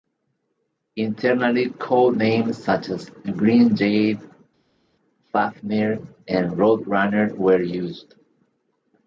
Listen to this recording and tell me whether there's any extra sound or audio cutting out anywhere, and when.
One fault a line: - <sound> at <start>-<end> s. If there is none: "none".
none